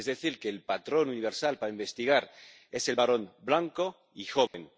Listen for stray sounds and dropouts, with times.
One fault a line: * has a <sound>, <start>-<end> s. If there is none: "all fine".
* has a dropout, 4.5-4.5 s